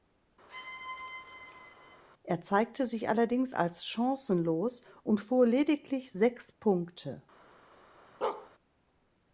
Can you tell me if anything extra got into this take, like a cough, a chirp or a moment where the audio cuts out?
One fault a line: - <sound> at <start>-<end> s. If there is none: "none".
- squeak at 0.5-2.0 s
- bark at 8.2-8.5 s